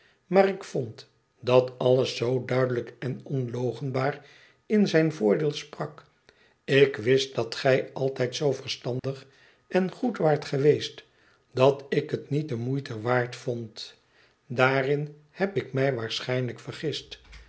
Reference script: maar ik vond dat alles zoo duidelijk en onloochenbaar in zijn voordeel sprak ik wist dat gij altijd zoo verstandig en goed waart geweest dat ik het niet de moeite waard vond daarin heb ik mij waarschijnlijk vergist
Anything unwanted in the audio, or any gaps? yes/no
yes